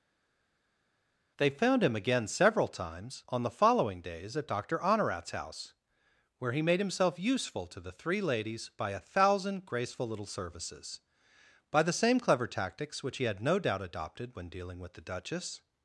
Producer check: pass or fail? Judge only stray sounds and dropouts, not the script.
pass